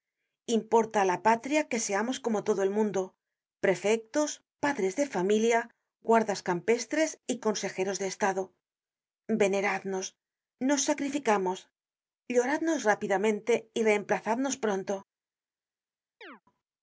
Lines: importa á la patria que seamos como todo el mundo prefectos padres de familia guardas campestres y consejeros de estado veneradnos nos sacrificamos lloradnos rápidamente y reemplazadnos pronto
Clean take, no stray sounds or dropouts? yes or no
no